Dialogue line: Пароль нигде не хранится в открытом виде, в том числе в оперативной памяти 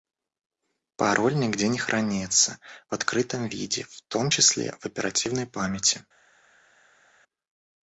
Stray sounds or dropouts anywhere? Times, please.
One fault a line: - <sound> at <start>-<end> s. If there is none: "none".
none